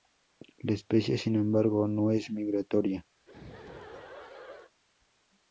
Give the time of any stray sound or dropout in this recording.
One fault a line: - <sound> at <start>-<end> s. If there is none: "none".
- laugh at 3.2-4.7 s